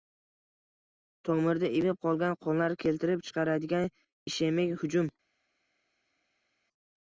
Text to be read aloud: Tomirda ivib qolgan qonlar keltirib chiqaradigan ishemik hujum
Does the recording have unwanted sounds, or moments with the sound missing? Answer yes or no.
no